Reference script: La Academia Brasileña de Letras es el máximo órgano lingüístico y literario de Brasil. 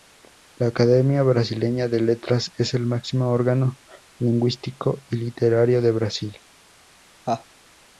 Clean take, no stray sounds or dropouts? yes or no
no